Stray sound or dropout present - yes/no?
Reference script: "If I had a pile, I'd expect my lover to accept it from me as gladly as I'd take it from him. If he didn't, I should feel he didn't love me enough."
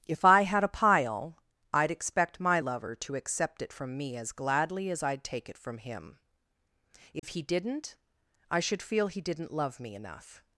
yes